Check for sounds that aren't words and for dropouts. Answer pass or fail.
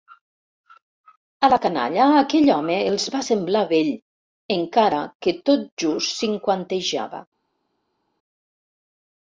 pass